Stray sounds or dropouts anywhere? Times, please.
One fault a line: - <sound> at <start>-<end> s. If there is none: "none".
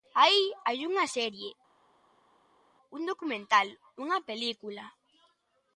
none